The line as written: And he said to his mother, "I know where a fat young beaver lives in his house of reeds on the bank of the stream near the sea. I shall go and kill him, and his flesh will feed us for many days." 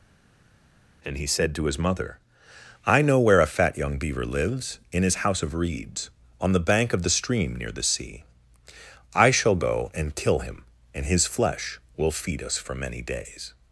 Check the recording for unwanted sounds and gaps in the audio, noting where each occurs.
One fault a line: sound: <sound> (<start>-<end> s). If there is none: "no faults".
no faults